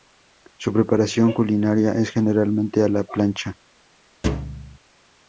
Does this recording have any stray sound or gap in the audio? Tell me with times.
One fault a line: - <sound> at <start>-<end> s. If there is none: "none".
- thud at 4.2-4.8 s